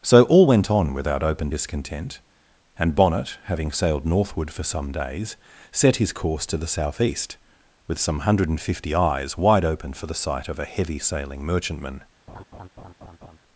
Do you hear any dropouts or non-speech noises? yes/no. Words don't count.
yes